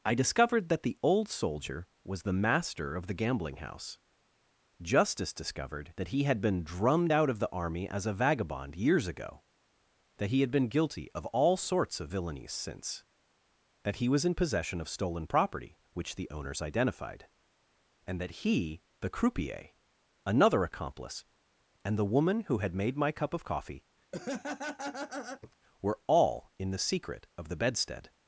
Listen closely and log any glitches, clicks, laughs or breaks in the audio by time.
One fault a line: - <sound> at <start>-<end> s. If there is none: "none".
- laugh at 24.1-25.6 s